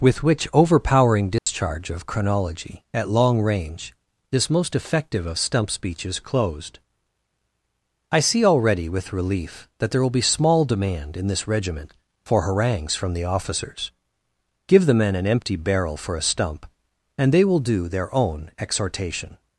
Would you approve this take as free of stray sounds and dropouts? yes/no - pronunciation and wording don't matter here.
no